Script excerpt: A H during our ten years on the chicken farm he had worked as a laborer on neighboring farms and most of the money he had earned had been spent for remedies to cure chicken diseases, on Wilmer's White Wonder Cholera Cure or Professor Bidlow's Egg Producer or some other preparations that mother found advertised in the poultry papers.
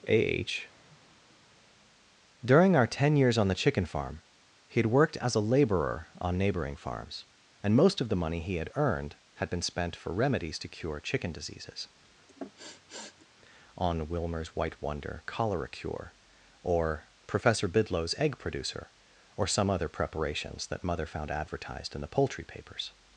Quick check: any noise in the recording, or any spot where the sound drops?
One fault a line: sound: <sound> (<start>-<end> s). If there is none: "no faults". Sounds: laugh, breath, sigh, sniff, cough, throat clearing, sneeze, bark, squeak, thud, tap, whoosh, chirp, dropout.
sound: sniff (12.3-13.3 s)